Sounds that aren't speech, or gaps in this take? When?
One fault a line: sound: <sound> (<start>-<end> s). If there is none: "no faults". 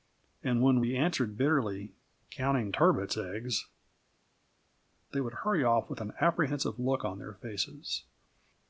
no faults